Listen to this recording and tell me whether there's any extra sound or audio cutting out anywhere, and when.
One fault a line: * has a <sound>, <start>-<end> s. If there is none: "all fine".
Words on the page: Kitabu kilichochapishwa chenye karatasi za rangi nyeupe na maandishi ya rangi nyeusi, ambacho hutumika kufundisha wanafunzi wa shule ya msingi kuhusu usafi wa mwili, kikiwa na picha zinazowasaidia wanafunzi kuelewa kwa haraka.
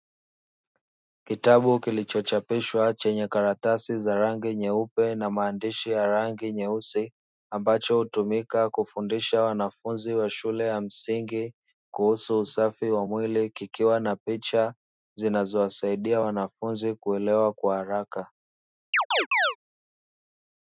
* has a chirp, 18.9-19.6 s